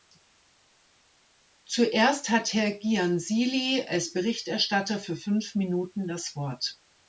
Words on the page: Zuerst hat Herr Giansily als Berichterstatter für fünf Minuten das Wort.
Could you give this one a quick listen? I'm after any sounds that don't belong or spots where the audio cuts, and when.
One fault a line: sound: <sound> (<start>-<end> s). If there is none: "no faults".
no faults